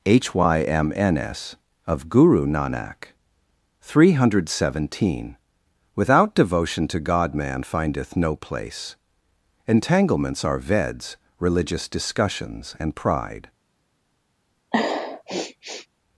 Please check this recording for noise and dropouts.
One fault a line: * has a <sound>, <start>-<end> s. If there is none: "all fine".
* has a sniff, 14.7-15.9 s